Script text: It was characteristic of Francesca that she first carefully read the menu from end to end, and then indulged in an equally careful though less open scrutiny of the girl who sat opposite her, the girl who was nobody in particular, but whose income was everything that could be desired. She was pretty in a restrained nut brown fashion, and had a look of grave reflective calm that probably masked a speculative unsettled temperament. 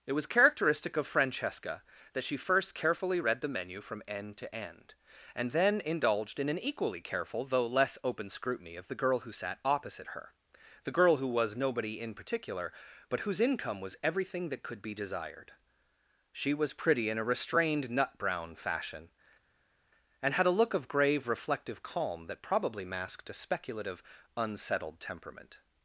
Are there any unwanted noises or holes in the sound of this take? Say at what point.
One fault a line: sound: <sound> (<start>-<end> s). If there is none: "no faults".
no faults